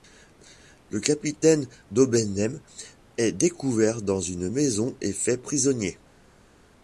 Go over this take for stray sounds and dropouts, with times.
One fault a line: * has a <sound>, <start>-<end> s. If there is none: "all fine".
all fine